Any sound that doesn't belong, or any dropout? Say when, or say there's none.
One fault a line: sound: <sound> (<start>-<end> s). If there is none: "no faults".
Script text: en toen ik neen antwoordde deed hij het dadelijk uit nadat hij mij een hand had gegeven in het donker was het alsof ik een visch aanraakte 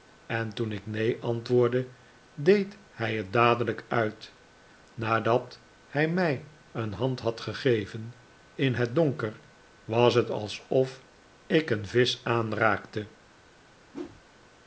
sound: whoosh (13.9-14.2 s)